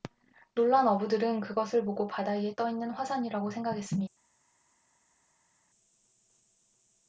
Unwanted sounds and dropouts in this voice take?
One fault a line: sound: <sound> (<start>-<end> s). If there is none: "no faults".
no faults